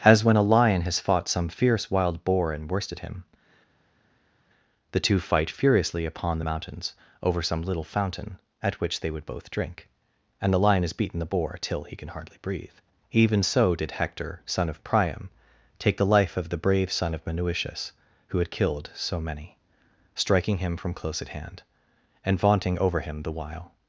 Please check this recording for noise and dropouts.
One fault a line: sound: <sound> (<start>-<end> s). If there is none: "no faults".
no faults